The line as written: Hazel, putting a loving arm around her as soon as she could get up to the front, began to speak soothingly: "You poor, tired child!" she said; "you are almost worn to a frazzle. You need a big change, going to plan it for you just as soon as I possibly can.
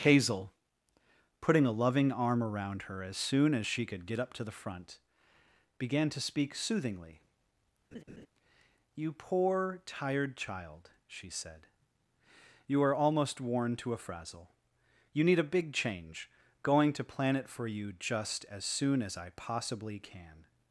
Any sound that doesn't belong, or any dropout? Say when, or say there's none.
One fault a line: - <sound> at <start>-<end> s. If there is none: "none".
- laugh at 7.9-8.3 s